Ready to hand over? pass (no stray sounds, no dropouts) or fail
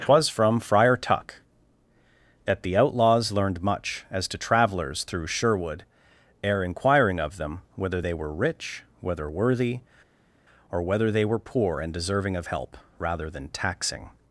pass